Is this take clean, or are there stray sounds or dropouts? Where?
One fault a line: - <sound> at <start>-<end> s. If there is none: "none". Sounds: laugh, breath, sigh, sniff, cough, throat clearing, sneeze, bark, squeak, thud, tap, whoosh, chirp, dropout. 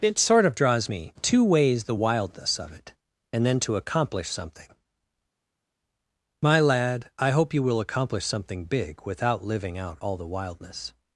none